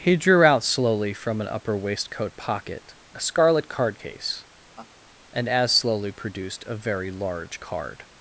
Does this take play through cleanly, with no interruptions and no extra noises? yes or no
no